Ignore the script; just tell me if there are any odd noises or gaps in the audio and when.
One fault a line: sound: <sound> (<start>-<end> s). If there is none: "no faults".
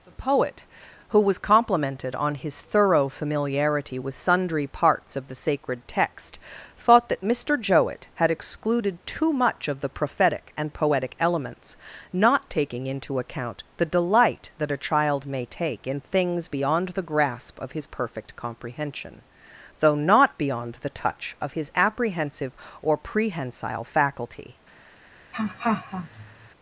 sound: laugh (25.3-26.5 s)